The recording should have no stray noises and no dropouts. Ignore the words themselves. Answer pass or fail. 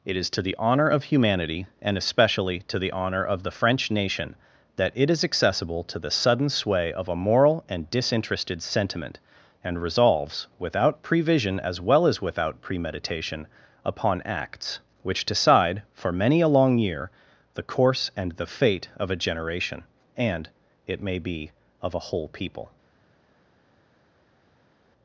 pass